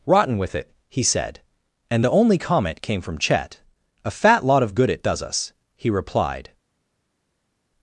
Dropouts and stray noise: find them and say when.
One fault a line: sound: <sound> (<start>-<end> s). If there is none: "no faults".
no faults